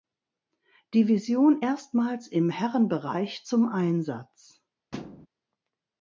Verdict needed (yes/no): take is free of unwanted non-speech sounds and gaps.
no